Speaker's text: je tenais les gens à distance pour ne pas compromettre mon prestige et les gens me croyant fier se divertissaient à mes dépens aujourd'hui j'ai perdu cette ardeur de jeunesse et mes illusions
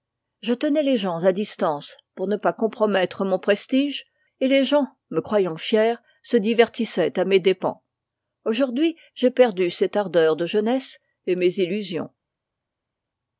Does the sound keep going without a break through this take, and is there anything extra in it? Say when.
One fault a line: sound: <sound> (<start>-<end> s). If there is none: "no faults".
no faults